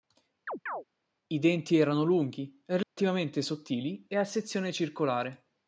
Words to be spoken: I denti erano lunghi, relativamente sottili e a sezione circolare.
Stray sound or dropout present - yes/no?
yes